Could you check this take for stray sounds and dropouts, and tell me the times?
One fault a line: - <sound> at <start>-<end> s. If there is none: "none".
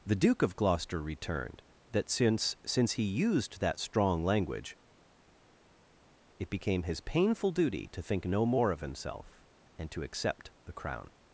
none